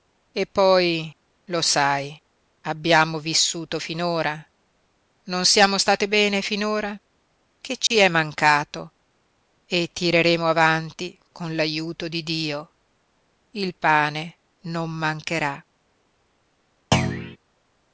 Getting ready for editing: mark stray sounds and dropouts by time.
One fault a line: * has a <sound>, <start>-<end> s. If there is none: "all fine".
* has a dropout, 7.9-7.9 s
* has a thud, 16.9-17.4 s